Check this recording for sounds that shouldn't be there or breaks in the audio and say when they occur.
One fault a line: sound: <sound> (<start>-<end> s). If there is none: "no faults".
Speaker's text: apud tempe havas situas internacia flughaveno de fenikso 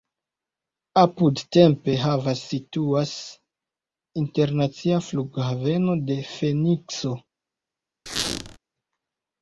sound: squeak (8.1-8.6 s)